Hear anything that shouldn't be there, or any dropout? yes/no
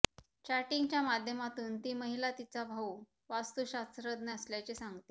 no